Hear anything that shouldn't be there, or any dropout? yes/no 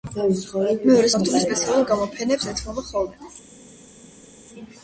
no